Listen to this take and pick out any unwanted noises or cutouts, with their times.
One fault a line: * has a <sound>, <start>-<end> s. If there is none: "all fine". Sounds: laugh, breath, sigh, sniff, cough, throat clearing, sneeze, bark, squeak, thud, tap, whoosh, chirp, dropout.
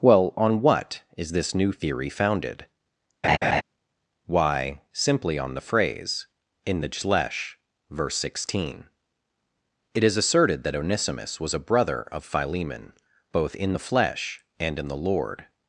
* has a laugh, 3.2-3.6 s